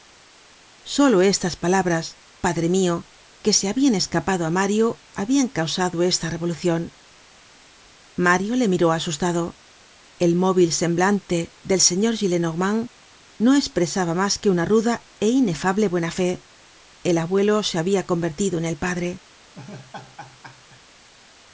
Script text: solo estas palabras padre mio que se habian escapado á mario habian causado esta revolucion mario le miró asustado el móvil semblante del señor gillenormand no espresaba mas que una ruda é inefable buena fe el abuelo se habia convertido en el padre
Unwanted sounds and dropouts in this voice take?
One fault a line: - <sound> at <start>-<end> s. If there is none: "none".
- laugh at 19.5-20.8 s